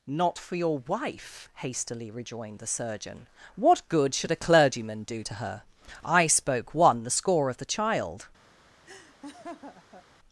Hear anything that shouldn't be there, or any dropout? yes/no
yes